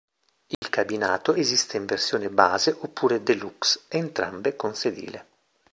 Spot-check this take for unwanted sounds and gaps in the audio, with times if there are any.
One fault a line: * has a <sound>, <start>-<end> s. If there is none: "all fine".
* has a dropout, 0.5-0.6 s